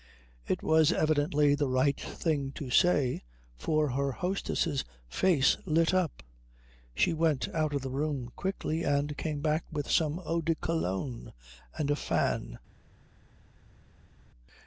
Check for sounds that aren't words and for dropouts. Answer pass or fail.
pass